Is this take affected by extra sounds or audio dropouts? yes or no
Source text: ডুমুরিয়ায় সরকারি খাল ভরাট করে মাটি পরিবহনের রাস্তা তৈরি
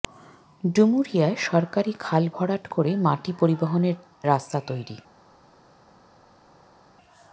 no